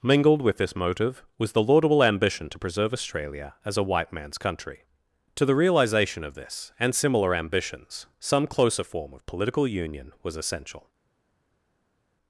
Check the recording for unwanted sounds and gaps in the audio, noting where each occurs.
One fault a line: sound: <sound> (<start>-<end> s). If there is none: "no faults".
no faults